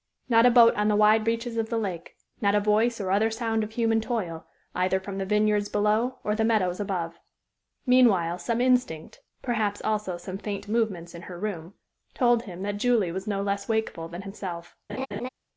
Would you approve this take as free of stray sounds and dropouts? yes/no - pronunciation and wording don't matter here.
no